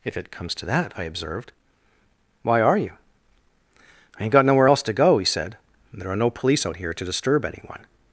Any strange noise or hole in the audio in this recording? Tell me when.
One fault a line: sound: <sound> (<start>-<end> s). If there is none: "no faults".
no faults